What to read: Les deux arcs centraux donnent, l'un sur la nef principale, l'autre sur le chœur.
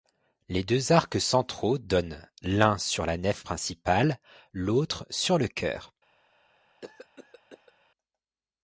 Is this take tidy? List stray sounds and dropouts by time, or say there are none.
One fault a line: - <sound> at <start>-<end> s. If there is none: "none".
- cough at 6.8-7.7 s